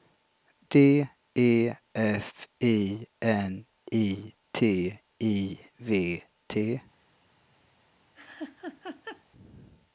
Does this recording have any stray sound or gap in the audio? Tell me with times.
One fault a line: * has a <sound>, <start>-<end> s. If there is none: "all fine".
* has a laugh, 8.1-9.2 s